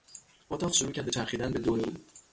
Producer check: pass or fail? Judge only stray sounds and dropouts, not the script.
pass